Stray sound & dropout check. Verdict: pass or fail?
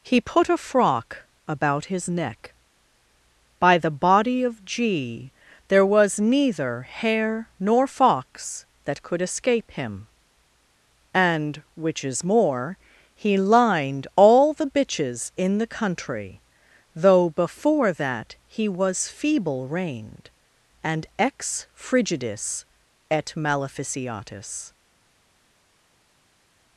pass